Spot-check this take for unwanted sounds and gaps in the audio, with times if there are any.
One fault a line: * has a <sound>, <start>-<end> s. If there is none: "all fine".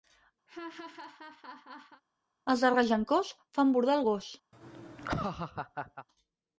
* has a laugh, 0.5-2.0 s
* has a laugh, 4.5-6.1 s